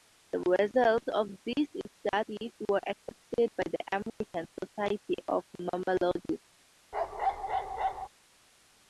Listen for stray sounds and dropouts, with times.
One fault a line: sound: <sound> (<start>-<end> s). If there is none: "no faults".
sound: dropout (4.1-4.2 s)
sound: bark (6.9-8.1 s)